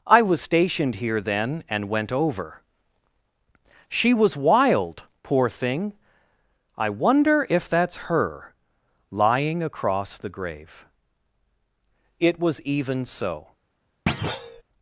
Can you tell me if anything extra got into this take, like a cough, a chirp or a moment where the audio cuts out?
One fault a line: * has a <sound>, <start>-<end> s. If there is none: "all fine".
* has a thud, 14.1-14.6 s